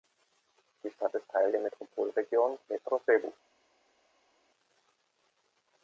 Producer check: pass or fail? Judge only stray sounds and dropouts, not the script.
pass